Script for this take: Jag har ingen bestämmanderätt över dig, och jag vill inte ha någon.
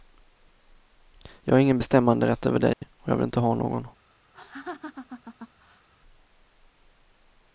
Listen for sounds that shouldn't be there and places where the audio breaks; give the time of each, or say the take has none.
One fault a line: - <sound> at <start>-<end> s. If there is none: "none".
- dropout at 2.7-2.8 s
- laugh at 4.3-5.9 s